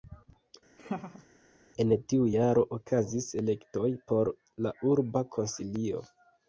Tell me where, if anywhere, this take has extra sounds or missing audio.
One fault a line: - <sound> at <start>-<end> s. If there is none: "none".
- laugh at 0.8-1.3 s